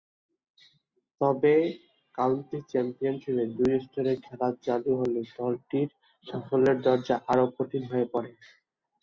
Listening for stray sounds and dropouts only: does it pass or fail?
pass